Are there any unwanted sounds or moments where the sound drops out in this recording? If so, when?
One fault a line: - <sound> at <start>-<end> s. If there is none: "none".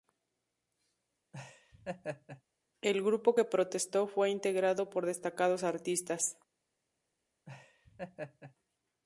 - laugh at 1.3-2.4 s
- laugh at 7.5-8.6 s